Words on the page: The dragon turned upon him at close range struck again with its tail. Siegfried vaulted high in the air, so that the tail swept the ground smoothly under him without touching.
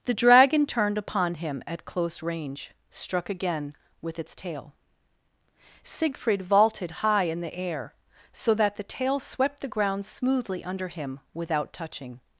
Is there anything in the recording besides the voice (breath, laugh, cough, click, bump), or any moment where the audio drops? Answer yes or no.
no